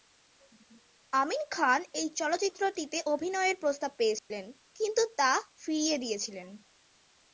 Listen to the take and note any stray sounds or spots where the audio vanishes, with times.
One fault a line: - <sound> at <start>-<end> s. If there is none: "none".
- dropout at 4.2-4.3 s